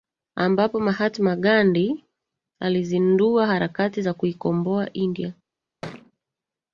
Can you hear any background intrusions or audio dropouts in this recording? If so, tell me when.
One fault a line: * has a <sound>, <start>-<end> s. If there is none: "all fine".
* has a thud, 5.8-6.1 s